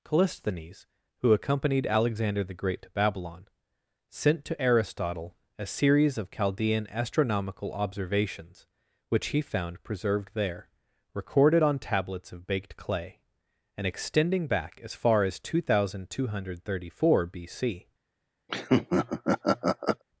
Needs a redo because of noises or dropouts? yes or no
yes